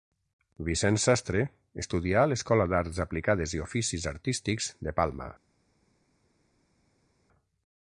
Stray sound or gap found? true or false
false